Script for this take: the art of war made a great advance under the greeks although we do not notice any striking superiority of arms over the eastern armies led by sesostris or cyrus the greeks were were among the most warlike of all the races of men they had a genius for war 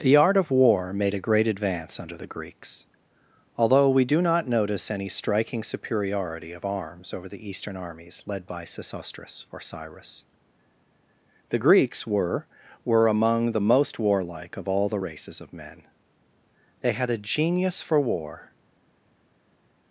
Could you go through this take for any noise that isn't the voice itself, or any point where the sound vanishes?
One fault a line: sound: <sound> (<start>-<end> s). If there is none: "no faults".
no faults